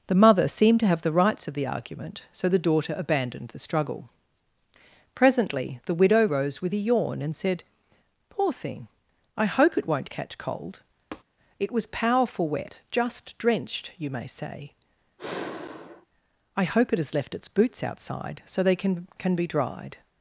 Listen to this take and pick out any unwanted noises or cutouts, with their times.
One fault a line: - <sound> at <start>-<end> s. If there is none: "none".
- tap at 11.1-11.2 s
- sigh at 15.2-16.1 s